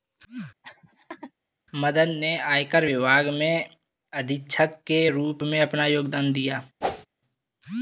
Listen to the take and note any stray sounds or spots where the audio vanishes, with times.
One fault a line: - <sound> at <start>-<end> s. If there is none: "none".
- laugh at 0.6-1.3 s
- whoosh at 6.8-7.1 s